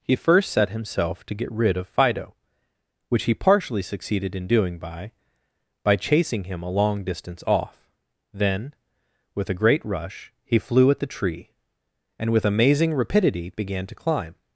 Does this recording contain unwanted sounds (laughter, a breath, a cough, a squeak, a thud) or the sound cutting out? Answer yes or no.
no